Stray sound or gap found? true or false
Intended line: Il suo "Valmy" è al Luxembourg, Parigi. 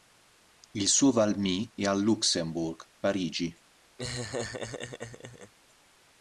true